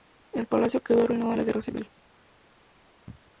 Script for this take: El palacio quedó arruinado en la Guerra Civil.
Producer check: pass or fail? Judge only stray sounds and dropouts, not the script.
pass